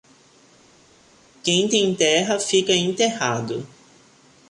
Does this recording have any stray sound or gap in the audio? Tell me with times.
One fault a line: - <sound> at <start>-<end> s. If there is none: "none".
none